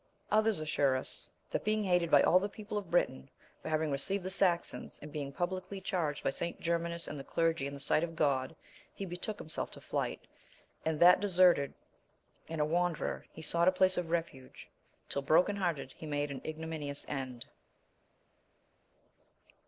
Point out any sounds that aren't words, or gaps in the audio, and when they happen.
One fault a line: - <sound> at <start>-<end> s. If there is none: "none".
none